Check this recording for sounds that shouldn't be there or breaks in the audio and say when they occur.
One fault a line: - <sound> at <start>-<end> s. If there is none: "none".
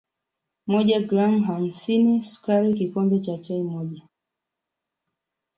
none